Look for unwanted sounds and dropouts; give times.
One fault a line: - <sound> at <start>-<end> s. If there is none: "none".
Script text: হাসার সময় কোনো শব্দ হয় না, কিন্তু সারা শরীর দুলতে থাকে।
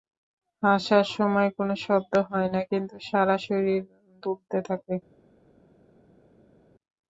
none